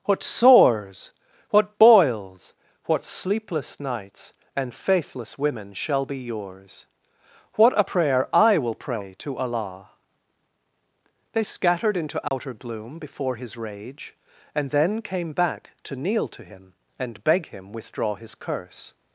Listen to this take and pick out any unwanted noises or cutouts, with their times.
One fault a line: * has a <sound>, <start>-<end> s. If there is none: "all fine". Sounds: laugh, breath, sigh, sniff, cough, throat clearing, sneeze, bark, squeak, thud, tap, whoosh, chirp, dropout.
* has a dropout, 12.3-12.3 s